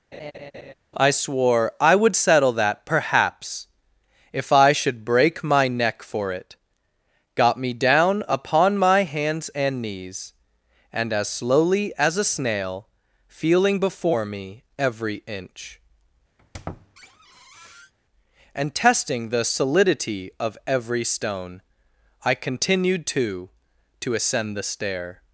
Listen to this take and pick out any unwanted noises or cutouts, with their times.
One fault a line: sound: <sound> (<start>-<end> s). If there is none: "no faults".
sound: laugh (0.1-0.7 s)
sound: squeak (16.4-17.9 s)